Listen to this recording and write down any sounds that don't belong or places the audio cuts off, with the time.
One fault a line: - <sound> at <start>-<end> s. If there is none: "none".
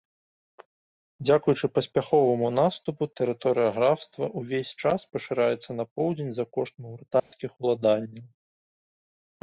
- dropout at 7.2-7.3 s